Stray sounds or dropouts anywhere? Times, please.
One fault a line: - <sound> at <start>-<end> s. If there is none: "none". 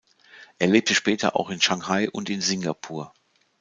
none